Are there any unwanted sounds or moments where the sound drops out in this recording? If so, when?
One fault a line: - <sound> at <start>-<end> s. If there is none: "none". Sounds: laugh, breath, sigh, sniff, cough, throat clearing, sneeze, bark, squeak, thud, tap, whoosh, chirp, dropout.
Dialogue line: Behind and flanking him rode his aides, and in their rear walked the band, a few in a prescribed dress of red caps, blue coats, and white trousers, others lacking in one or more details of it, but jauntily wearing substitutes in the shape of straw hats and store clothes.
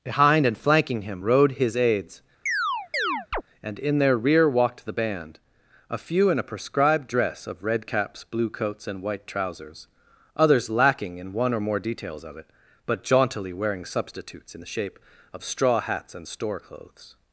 - chirp at 2.5-3.4 s